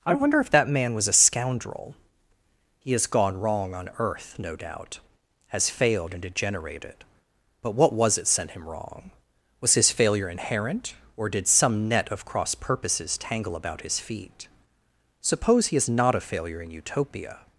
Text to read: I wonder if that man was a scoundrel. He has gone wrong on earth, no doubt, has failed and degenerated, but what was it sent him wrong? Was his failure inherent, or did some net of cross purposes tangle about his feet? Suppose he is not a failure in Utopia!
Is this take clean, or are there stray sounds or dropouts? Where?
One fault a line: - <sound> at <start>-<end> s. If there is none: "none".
none